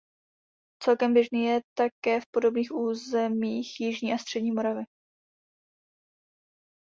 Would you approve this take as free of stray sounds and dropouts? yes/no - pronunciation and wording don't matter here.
yes